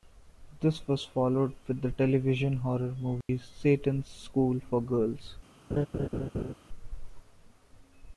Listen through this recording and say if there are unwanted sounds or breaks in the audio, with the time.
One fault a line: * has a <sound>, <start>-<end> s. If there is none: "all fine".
* has a dropout, 3.2-3.3 s
* has a laugh, 5.7-6.5 s